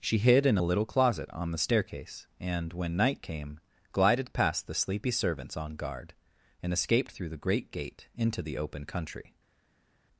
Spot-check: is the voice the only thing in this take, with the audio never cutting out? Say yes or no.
yes